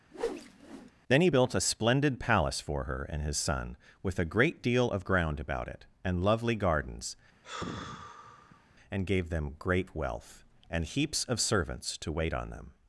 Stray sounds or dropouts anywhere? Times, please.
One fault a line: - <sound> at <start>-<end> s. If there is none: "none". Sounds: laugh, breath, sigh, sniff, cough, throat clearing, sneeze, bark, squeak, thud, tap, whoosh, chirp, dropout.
- whoosh at 0.1-0.9 s
- sigh at 7.4-8.7 s